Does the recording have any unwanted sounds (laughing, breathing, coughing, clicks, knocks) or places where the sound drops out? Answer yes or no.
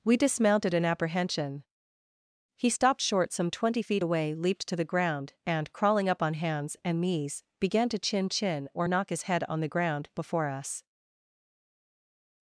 no